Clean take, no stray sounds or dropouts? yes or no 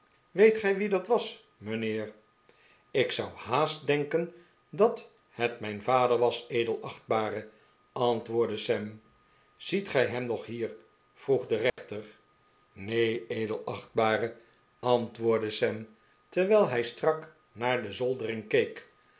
no